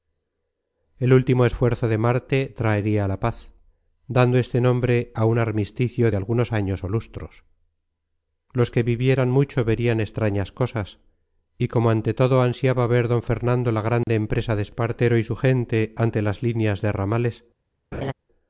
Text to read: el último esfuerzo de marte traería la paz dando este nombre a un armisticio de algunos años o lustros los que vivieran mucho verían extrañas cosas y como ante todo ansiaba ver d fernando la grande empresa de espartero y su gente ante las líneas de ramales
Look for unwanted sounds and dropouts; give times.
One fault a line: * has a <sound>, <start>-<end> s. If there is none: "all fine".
* has a dropout, 14.0-14.1 s
* has a laugh, 17.9-18.1 s